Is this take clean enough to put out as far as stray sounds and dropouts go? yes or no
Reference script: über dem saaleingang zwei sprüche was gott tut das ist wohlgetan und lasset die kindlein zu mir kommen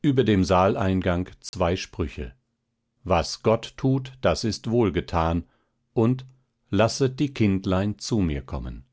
no